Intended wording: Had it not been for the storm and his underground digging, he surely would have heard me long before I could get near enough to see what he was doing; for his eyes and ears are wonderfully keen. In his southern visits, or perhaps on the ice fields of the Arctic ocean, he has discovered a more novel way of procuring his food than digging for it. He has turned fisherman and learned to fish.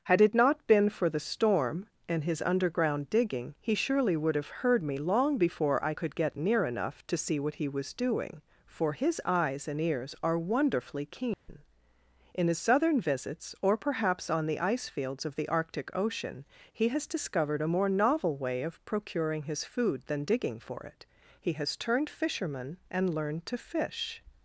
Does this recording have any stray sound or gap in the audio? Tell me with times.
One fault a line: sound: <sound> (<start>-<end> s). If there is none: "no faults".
sound: dropout (11.3-11.5 s)